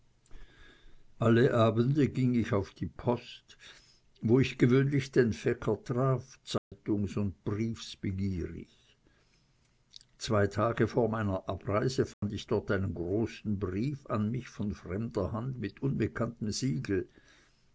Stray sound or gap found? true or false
true